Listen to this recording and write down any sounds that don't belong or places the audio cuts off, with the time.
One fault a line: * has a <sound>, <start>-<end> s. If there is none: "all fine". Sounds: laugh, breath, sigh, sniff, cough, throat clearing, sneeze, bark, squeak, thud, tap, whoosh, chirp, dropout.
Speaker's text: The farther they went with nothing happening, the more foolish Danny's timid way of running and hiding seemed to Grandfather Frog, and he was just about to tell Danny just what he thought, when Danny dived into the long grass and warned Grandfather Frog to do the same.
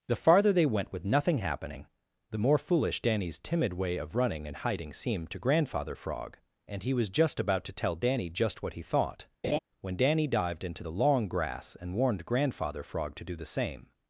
* has a laugh, 9.4-9.6 s